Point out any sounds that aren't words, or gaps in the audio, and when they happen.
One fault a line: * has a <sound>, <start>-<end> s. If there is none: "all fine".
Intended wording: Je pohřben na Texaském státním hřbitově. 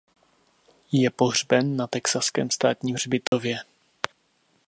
* has a dropout, 3.3-3.3 s